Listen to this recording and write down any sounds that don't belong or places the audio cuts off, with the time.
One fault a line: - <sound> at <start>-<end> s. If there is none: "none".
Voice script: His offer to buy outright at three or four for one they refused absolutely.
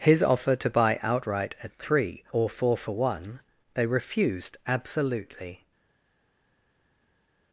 none